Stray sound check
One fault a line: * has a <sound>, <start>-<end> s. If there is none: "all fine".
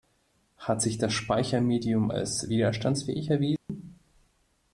* has a dropout, 3.6-3.7 s